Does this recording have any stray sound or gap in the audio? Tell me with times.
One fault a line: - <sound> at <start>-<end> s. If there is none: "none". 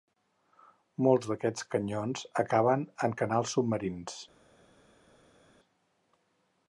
none